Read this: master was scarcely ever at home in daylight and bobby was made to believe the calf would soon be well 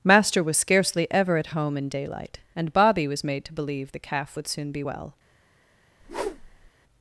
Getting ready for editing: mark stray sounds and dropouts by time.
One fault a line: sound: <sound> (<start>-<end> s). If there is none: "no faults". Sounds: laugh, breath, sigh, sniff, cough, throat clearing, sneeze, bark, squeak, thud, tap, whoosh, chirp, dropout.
sound: whoosh (6.0-6.7 s)